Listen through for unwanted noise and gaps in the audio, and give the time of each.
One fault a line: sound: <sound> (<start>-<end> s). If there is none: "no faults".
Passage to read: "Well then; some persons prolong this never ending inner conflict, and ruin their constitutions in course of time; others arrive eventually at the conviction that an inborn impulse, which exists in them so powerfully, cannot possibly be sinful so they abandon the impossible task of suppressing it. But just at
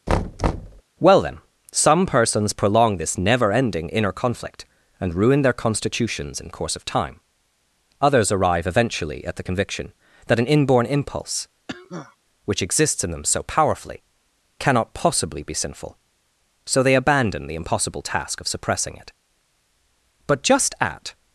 sound: thud (0.1-0.8 s)
sound: cough (11.7-12.2 s)